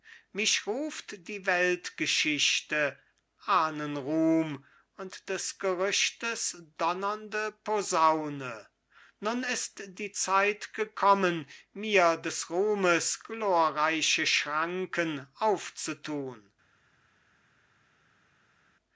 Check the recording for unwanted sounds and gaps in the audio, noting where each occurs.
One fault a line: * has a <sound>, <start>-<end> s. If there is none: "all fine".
all fine